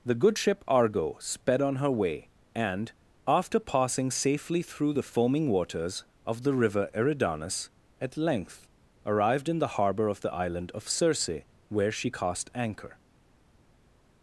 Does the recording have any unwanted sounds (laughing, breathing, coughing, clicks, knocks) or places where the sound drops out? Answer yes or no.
no